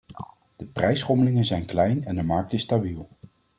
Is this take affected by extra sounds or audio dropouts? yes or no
no